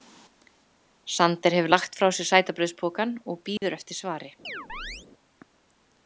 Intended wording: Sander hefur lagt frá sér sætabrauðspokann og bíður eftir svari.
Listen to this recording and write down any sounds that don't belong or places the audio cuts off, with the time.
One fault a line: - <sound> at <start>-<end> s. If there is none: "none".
- dropout at 3.6-3.6 s
- chirp at 4.4-5.1 s